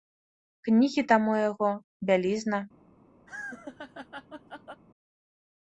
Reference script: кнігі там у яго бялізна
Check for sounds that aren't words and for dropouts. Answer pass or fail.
fail